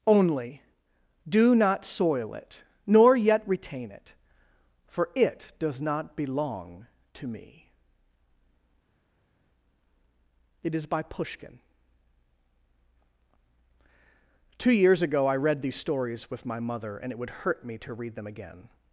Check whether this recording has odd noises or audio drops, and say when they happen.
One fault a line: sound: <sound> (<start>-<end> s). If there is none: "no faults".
no faults